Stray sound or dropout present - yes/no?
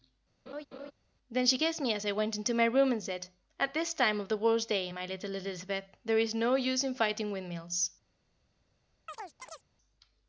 yes